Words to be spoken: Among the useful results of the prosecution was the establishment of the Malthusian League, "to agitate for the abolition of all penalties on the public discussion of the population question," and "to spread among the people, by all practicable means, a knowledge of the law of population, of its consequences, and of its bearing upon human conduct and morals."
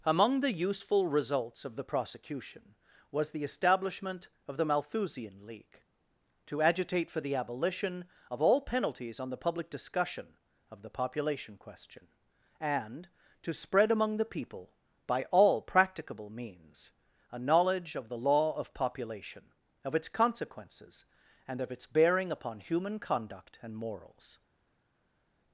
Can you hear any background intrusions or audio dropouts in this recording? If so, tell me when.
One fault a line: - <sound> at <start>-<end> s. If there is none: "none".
none